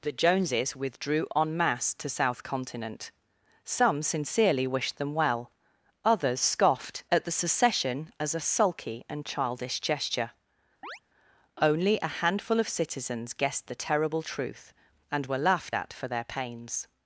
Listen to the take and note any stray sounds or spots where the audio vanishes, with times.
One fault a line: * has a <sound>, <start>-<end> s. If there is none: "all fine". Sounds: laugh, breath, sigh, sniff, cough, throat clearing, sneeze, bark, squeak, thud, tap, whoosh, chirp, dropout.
* has a chirp, 10.8-11.0 s